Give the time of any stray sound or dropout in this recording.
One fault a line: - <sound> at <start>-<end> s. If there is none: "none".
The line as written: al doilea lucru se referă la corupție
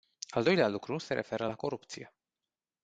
none